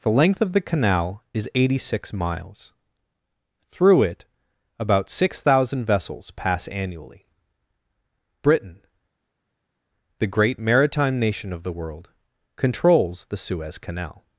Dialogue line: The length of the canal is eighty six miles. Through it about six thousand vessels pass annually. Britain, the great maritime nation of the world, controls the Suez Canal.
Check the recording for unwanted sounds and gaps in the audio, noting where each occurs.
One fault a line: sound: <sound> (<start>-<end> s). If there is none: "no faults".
no faults